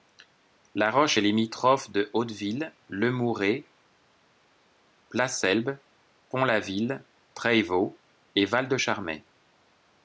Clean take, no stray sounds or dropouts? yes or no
yes